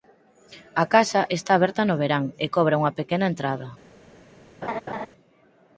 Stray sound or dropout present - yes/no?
yes